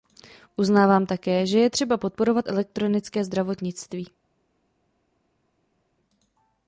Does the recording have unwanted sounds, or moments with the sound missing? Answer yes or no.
no